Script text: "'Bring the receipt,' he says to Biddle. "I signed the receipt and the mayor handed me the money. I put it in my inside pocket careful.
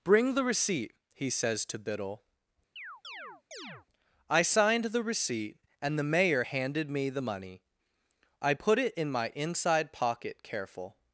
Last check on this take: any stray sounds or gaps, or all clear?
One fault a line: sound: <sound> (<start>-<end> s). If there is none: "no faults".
sound: chirp (2.8-3.9 s)